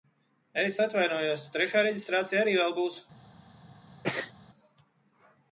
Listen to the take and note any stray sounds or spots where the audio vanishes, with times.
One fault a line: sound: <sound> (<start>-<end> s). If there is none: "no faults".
sound: sneeze (4.0-4.3 s)